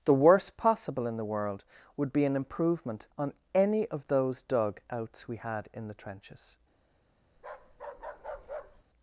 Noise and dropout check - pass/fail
fail